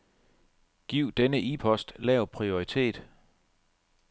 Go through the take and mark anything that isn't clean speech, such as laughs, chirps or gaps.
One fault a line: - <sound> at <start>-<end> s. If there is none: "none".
none